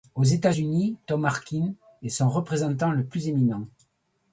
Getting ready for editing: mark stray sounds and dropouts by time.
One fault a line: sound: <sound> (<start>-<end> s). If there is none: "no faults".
no faults